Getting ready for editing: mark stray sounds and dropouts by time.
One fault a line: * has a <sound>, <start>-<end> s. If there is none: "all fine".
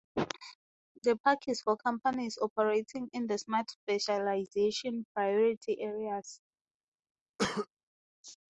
* has a cough, 7.4-7.7 s